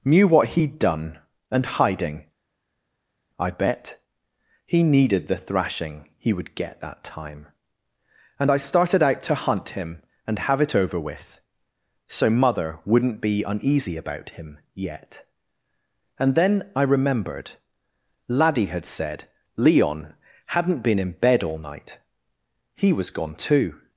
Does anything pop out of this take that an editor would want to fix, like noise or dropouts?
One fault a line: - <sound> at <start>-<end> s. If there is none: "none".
none